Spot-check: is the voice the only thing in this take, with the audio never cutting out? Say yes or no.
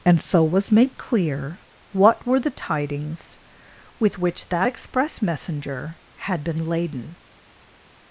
yes